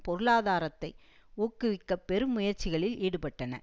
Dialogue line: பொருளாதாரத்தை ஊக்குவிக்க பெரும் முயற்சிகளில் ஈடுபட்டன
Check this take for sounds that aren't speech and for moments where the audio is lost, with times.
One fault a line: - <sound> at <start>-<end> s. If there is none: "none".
none